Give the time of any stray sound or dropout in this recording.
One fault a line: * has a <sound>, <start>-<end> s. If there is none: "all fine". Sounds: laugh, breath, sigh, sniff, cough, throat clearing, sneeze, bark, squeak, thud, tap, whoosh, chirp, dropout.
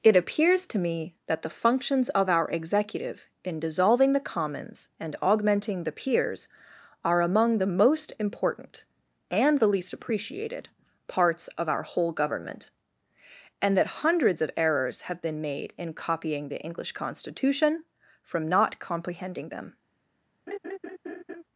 * has a laugh, 20.5-21.4 s